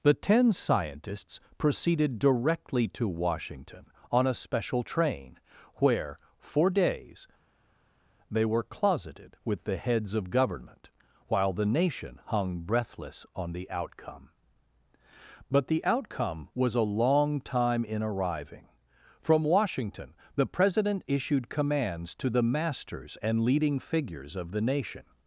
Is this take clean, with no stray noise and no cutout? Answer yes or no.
yes